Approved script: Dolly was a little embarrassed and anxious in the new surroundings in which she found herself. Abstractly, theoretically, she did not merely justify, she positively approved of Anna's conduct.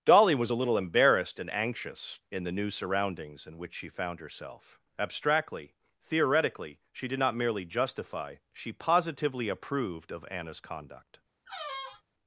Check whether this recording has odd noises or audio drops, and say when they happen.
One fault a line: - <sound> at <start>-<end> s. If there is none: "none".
- squeak at 11.5-12.0 s